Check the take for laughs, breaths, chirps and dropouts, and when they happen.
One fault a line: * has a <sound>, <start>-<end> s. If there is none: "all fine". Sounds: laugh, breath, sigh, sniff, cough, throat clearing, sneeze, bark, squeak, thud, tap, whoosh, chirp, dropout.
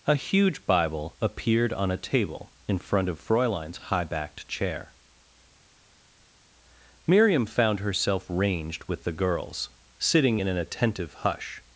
all fine